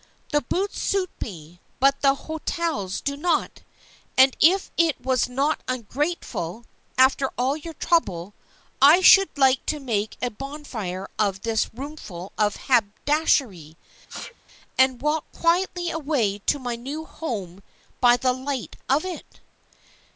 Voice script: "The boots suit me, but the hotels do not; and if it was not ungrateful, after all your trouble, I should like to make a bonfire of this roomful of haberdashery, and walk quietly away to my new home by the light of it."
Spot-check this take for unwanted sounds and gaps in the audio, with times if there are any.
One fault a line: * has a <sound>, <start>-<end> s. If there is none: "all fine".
* has a sneeze, 14.1-14.3 s